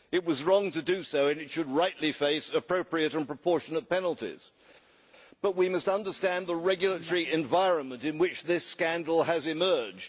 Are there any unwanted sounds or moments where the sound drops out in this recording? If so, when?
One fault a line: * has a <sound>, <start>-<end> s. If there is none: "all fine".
all fine